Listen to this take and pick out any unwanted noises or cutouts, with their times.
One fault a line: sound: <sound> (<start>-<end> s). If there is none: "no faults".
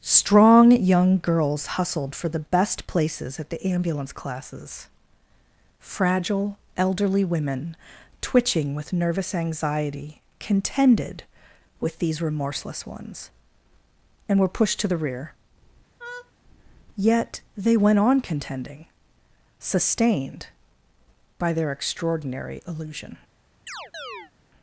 sound: laugh (16.0-16.3 s)
sound: chirp (23.7-24.3 s)